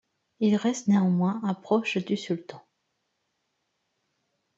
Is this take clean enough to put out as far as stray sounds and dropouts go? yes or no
yes